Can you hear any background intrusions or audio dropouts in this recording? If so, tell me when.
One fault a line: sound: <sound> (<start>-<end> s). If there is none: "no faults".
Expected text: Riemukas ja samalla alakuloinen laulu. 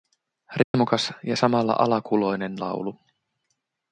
sound: dropout (0.6-0.7 s)